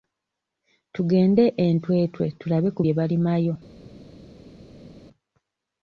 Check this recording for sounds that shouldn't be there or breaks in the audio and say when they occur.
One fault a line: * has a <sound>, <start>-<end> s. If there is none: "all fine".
all fine